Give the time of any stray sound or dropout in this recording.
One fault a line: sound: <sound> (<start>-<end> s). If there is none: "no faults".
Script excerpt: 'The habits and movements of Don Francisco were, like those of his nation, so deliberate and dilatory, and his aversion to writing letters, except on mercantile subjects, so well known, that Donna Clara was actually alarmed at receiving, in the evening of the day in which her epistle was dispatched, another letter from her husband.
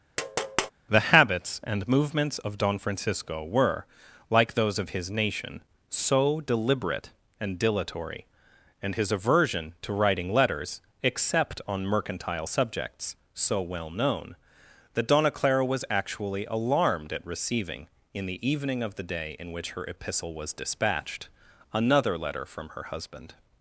sound: tap (0.2-0.7 s)